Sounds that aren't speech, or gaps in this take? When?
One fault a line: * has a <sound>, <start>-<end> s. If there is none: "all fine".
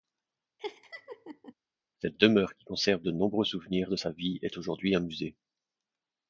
* has a laugh, 0.6-1.5 s